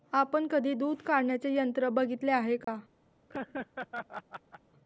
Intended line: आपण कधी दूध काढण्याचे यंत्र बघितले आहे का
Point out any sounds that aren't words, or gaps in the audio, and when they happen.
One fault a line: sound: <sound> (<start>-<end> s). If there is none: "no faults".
sound: dropout (2.6-2.7 s)
sound: laugh (3.3-4.6 s)